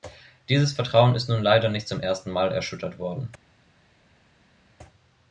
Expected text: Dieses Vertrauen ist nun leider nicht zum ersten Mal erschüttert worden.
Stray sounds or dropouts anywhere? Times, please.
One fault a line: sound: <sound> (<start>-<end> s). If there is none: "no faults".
no faults